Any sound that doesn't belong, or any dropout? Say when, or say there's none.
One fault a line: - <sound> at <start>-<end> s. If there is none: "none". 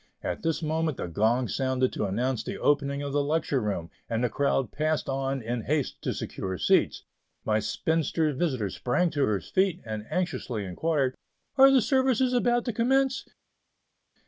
none